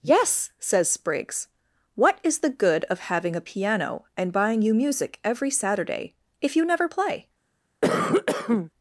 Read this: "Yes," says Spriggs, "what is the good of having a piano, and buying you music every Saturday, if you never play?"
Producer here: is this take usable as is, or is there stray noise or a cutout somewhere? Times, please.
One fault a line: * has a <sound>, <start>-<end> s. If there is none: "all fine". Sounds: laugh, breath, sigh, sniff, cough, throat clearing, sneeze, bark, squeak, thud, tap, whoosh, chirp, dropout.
* has a cough, 7.8-8.7 s